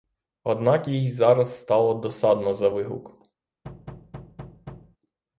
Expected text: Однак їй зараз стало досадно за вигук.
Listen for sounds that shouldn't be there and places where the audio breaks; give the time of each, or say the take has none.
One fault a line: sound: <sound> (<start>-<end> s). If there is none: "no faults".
sound: thud (3.6-5.0 s)